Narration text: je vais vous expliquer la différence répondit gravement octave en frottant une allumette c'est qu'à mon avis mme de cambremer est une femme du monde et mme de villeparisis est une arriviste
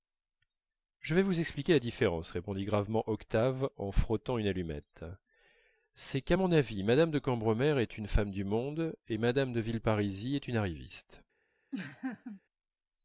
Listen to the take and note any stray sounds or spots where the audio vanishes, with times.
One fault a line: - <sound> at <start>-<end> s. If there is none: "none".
- laugh at 11.7-12.4 s